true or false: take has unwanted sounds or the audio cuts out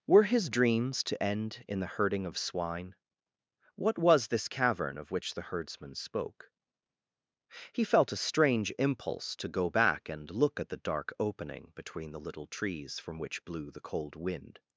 false